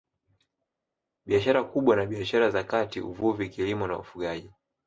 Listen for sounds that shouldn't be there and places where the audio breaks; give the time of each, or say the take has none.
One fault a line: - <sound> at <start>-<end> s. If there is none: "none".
none